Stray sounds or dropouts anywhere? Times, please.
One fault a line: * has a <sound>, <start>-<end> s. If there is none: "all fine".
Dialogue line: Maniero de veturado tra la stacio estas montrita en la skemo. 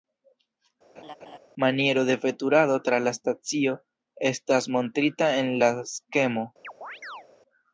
* has a laugh, 1.0-1.4 s
* has a chirp, 6.6-7.3 s